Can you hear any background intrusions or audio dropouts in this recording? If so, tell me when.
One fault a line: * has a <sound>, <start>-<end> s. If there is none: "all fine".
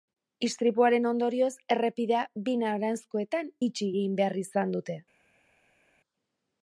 all fine